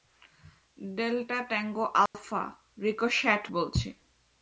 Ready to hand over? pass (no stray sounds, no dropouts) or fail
fail